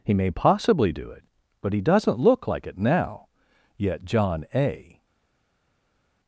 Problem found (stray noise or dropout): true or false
false